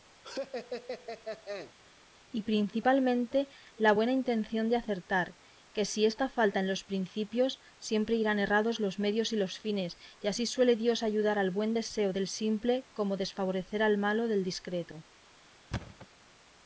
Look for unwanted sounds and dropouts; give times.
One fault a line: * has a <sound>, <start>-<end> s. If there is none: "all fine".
* has a laugh, 0.2-1.7 s
* has a thud, 15.7-16.1 s